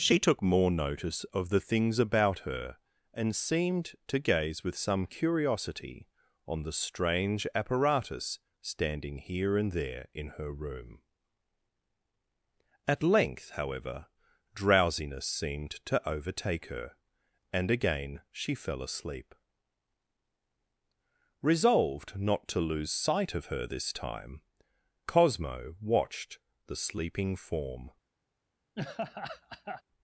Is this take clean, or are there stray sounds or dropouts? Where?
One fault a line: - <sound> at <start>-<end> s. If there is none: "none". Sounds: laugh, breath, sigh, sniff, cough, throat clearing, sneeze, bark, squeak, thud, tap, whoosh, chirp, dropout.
- laugh at 28.8-29.8 s